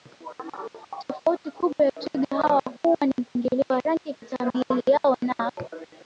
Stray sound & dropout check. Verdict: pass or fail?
pass